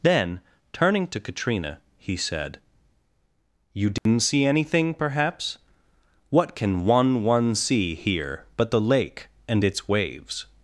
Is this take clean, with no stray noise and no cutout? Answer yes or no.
no